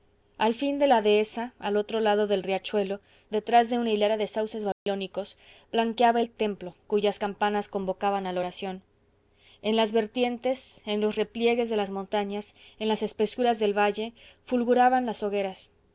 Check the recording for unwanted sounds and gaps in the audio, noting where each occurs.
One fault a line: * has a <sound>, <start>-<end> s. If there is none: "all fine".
* has a dropout, 4.7-4.9 s